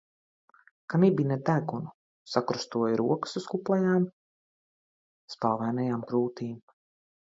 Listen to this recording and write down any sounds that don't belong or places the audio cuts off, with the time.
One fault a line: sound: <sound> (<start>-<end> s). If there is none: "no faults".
no faults